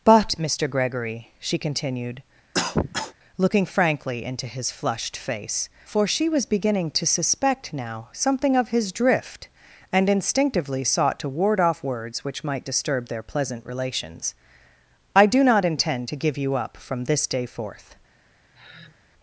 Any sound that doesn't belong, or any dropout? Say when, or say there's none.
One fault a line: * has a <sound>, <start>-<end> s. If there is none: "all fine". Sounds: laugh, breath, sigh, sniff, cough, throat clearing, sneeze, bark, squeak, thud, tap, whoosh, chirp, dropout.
* has a cough, 2.5-3.1 s
* has a sigh, 18.5-19.0 s